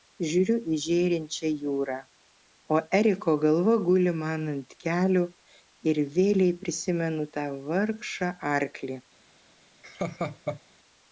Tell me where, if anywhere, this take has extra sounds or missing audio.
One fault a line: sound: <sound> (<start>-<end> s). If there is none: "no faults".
sound: laugh (9.8-10.6 s)